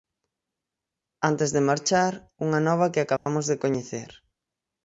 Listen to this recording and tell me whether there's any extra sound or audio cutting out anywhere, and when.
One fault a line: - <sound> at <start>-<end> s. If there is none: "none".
- dropout at 3.2-3.3 s